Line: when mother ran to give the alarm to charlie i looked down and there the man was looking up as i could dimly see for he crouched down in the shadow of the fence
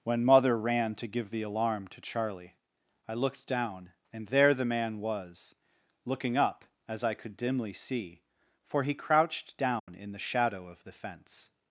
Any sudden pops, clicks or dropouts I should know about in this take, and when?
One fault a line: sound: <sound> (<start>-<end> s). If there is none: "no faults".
sound: dropout (9.8-9.9 s)